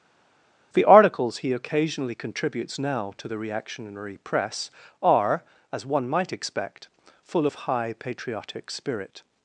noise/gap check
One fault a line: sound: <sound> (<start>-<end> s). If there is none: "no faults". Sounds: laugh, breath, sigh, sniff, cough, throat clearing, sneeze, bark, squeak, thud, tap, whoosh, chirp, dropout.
no faults